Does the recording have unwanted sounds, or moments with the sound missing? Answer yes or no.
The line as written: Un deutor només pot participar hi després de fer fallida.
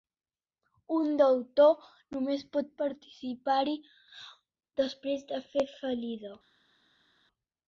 no